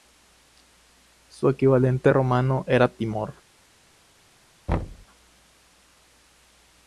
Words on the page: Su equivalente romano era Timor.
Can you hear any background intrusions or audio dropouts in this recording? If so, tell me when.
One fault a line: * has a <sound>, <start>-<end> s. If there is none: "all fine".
* has a thud, 4.7-5.1 s